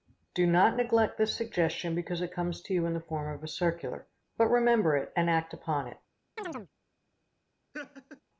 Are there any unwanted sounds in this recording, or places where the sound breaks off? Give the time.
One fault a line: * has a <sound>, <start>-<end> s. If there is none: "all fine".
* has a chirp, 6.4-6.7 s
* has a laugh, 7.7-8.2 s